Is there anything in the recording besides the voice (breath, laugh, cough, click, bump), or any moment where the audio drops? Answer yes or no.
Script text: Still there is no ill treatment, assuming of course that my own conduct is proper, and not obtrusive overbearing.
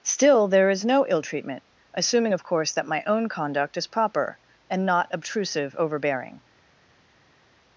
no